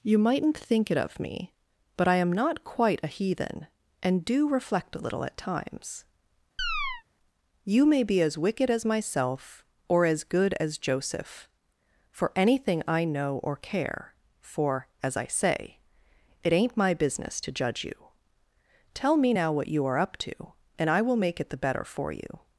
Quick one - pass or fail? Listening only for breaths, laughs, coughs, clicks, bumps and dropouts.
fail